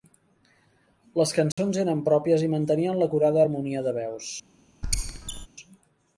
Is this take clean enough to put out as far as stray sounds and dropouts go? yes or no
no